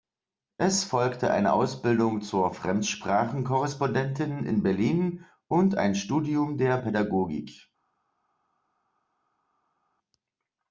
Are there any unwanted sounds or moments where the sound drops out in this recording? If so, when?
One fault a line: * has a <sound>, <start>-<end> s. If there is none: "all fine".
all fine